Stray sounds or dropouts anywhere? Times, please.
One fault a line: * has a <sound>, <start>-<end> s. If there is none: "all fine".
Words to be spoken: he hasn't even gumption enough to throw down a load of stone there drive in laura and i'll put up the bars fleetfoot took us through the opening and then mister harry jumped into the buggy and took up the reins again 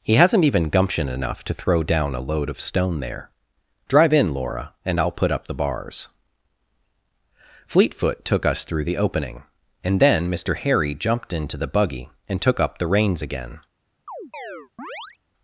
* has a chirp, 14.1-15.2 s